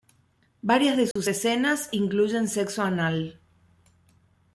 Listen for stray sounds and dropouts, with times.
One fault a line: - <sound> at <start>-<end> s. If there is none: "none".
- dropout at 1.1-1.2 s